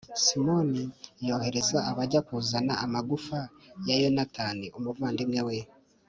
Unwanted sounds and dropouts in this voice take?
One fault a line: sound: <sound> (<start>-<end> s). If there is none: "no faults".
no faults